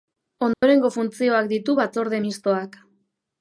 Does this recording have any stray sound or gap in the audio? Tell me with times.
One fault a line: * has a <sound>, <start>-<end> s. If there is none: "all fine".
* has a dropout, 0.5-0.6 s